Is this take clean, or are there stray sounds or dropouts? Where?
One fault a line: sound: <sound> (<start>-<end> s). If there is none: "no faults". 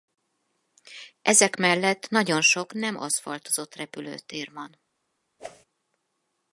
sound: whoosh (5.4-5.7 s)